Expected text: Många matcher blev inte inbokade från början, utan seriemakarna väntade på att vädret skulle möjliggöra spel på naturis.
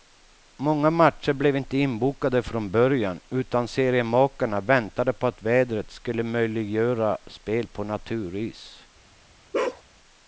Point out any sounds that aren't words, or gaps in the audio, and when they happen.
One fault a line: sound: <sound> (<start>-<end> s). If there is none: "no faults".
sound: bark (9.5-9.8 s)